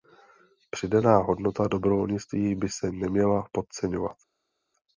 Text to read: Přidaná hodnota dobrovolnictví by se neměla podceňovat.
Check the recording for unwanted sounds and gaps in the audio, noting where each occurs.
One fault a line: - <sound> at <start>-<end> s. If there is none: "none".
none